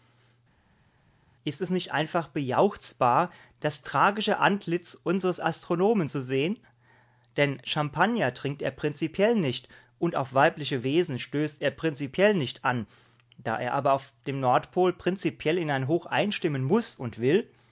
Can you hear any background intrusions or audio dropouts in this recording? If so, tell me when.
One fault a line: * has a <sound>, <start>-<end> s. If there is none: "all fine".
all fine